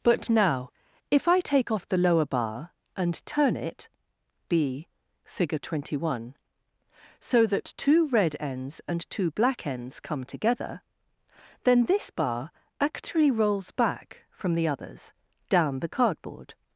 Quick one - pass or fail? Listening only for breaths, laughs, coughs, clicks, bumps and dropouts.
pass